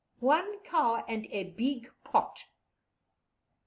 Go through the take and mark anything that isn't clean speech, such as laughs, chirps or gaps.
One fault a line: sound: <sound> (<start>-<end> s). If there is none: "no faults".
no faults